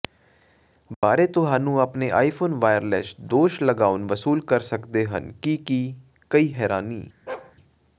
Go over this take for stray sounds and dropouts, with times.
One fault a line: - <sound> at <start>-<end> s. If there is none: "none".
- dropout at 0.9-1.0 s
- bark at 7.3-7.6 s